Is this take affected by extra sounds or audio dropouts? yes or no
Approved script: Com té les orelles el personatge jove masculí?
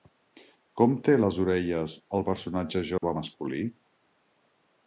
yes